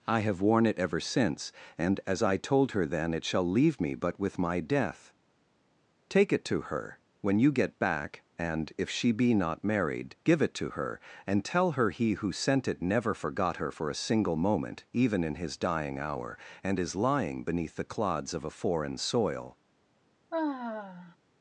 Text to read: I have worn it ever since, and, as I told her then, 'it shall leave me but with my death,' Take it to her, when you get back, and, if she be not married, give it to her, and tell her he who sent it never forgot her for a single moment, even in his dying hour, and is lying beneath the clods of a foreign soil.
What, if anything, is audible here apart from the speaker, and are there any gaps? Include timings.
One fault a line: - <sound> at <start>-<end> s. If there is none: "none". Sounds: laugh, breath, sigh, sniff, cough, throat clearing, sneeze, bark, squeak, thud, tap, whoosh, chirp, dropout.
- sigh at 20.3-21.2 s